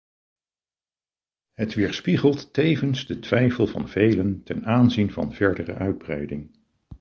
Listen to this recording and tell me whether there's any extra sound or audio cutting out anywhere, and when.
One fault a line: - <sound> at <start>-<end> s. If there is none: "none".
none